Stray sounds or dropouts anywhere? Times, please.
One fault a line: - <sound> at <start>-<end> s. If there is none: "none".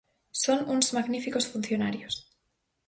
none